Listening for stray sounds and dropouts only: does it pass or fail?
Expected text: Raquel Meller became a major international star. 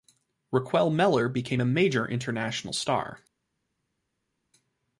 pass